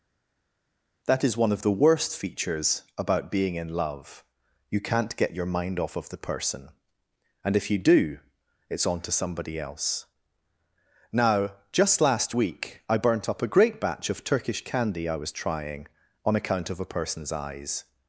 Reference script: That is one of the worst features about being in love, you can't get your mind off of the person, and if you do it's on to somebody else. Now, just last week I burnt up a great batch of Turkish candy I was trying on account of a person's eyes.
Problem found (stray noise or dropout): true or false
false